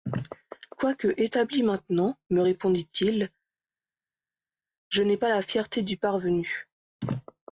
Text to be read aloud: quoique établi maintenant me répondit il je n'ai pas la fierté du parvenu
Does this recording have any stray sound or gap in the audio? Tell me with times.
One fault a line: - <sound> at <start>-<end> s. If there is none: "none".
none